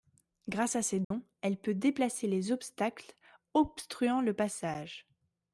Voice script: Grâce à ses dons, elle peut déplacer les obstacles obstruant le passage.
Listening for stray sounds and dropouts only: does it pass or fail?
fail